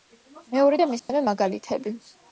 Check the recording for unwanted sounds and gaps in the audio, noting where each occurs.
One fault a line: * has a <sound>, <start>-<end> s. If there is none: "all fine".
* has a dropout, 1.0-1.1 s